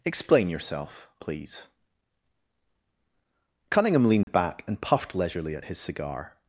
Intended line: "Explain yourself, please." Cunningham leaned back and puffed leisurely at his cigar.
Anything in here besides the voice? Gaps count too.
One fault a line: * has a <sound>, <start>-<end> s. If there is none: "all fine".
* has a dropout, 4.2-4.3 s